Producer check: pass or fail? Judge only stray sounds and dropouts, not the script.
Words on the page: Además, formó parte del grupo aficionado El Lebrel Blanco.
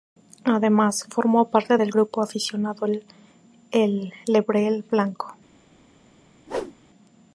fail